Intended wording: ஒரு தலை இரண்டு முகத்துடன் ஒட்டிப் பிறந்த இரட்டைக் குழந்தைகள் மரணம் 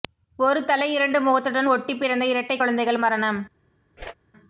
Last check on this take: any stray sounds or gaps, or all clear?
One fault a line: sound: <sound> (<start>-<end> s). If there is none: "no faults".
sound: whoosh (4.0-4.1 s)